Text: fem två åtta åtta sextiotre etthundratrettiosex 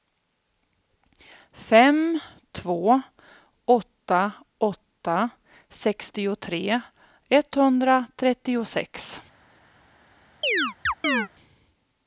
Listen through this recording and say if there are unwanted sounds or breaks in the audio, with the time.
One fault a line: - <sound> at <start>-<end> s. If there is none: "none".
- chirp at 10.4-11.3 s